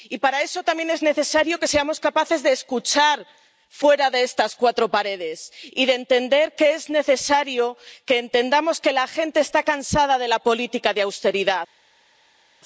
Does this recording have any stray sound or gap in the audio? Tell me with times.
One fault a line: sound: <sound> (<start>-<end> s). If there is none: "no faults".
no faults